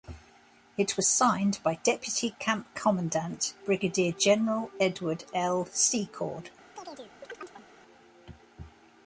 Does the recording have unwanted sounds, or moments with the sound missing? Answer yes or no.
yes